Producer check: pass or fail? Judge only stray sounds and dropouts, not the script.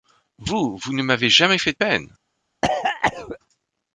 fail